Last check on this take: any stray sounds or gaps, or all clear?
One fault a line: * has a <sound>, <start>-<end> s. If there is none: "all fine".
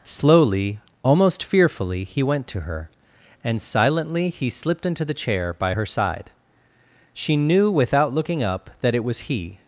all fine